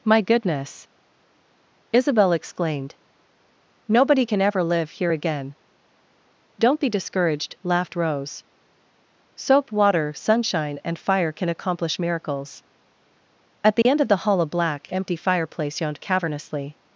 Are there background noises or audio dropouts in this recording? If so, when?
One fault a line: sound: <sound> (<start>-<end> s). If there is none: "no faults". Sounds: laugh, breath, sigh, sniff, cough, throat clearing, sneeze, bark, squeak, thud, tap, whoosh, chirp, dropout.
sound: dropout (13.8-13.9 s)